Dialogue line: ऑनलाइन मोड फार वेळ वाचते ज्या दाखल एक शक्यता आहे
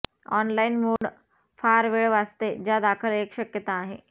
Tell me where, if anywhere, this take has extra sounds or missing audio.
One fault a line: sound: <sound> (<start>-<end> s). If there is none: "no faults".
sound: dropout (1.0-1.0 s)